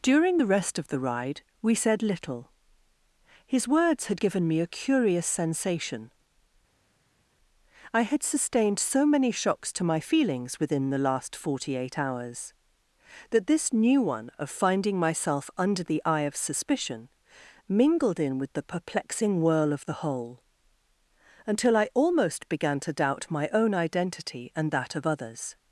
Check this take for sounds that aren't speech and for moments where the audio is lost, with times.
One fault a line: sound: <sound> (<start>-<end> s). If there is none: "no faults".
no faults